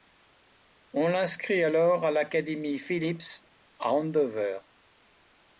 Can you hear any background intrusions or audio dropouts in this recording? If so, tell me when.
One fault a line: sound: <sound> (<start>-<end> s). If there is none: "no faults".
no faults